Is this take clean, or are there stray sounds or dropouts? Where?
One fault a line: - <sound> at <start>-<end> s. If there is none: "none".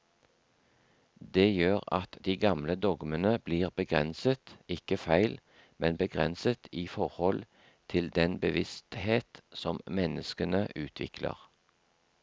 none